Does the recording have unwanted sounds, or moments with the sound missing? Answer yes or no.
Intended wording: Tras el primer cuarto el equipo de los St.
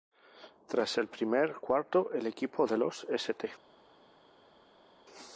no